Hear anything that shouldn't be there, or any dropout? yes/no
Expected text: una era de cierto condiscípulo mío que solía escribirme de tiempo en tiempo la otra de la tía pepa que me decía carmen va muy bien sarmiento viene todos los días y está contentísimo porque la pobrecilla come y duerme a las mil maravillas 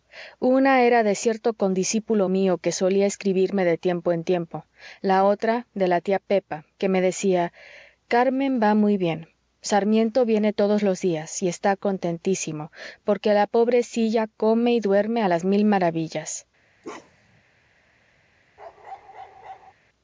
yes